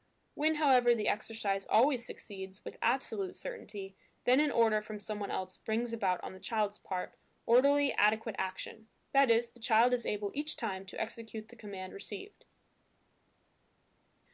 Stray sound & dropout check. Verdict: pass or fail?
pass